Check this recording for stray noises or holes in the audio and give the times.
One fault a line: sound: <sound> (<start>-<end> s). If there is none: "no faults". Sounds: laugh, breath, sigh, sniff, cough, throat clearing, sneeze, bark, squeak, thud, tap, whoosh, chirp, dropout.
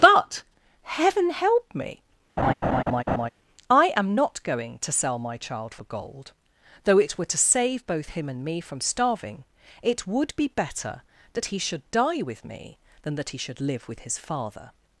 sound: laugh (2.4-3.3 s)